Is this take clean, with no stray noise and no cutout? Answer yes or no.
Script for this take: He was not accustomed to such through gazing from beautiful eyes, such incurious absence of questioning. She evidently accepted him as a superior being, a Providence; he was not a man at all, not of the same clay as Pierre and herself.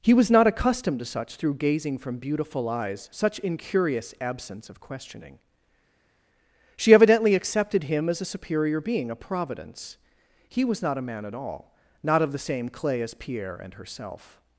yes